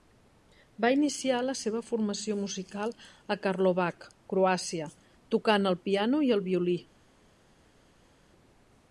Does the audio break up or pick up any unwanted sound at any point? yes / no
no